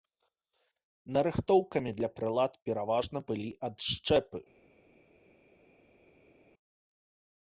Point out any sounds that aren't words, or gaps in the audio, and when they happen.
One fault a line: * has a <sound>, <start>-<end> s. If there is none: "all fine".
all fine